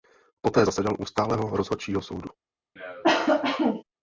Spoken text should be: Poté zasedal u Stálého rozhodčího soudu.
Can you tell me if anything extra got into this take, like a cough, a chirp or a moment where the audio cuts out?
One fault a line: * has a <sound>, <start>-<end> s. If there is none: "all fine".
* has a cough, 2.8-3.8 s